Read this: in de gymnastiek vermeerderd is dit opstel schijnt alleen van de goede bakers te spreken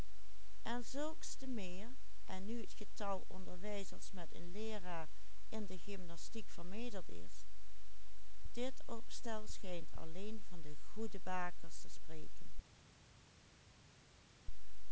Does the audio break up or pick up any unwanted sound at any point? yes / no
no